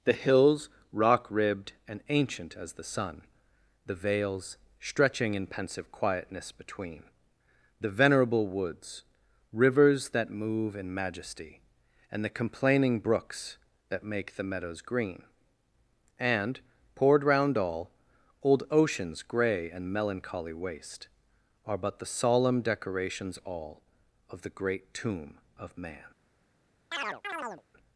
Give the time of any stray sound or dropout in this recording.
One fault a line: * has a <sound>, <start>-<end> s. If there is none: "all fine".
* has a chirp, 26.9-27.6 s